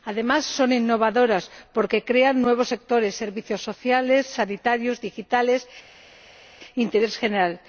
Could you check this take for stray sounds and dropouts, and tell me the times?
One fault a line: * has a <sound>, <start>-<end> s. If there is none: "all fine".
all fine